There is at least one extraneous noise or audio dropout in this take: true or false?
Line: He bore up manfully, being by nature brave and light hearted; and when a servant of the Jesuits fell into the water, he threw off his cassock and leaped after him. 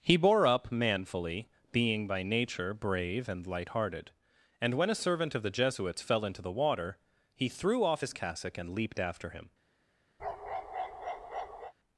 true